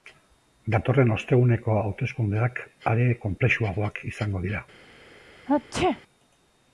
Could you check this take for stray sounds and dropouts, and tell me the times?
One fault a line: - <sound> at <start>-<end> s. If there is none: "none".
- sneeze at 5.5-6.0 s